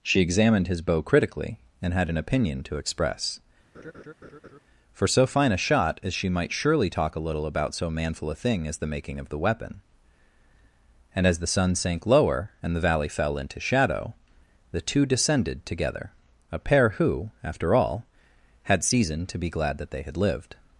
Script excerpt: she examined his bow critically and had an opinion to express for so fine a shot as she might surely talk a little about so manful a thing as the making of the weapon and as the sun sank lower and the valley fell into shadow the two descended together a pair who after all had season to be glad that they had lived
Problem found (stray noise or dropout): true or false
true